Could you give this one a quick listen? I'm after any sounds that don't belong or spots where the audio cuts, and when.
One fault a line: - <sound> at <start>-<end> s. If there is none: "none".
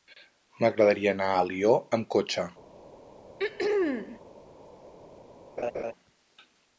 - throat clearing at 3.4-4.2 s
- laugh at 5.6-5.9 s